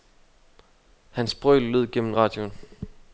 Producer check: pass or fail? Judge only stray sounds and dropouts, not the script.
pass